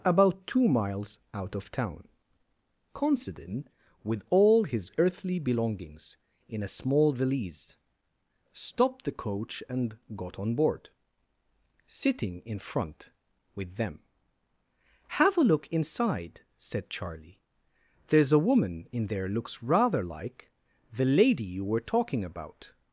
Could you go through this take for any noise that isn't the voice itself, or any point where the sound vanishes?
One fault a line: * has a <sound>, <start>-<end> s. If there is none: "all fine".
all fine